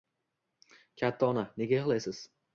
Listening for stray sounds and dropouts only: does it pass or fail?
pass